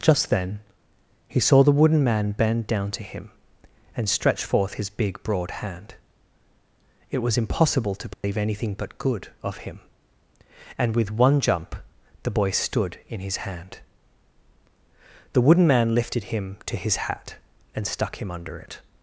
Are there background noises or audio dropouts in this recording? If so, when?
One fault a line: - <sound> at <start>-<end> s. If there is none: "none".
- dropout at 8.1-8.2 s